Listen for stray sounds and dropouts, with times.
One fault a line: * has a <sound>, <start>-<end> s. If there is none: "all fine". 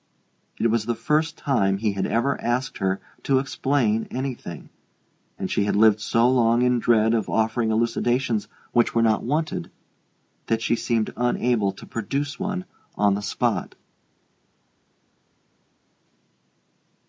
all fine